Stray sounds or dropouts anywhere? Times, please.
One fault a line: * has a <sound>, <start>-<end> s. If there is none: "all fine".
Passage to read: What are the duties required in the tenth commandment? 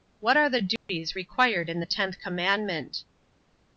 * has a dropout, 0.8-0.9 s